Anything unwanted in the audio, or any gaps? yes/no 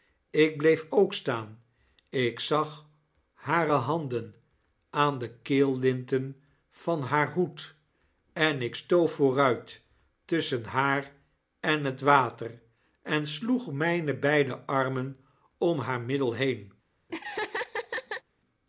yes